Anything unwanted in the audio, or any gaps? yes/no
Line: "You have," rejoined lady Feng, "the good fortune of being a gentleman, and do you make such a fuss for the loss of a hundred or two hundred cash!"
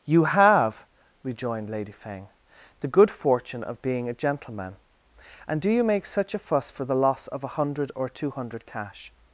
no